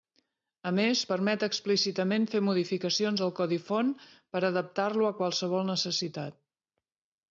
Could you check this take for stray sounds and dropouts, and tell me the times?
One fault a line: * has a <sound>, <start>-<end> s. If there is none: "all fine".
all fine